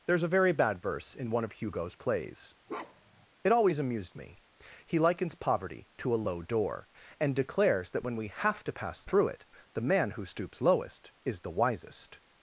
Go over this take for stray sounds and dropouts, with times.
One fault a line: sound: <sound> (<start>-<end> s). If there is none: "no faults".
sound: bark (2.7-3.3 s)